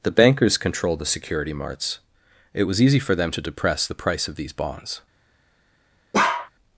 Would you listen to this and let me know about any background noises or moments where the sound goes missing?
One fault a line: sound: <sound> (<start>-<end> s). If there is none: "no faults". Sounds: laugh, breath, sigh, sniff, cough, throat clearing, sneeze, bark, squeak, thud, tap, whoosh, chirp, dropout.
sound: bark (6.1-6.5 s)